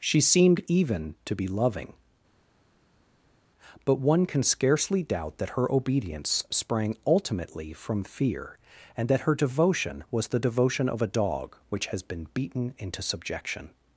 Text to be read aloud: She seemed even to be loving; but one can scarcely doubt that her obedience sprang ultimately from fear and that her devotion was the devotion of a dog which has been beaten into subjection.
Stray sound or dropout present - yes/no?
no